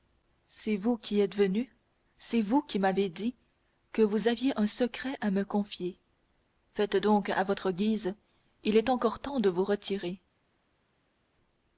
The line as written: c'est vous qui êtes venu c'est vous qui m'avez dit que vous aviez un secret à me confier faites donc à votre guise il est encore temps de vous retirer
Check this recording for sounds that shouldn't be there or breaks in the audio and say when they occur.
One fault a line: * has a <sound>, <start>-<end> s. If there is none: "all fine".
all fine